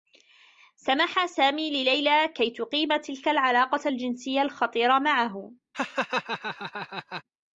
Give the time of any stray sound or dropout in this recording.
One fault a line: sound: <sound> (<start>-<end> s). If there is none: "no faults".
sound: laugh (5.7-7.2 s)